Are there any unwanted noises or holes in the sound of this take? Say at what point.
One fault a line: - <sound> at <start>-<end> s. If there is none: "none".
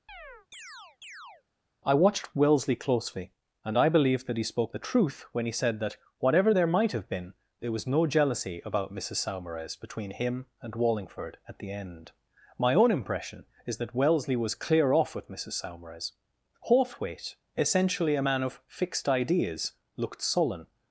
- chirp at 0.1-1.4 s